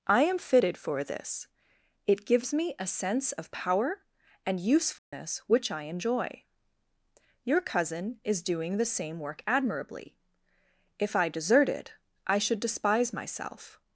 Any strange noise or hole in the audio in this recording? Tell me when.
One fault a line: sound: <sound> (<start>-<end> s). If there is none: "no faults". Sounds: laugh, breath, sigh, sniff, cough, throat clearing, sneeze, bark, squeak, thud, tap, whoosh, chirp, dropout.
sound: dropout (5.0-5.1 s)